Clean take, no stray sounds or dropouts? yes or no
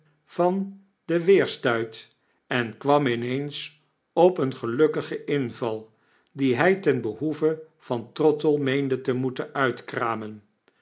yes